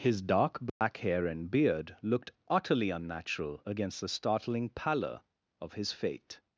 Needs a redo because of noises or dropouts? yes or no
yes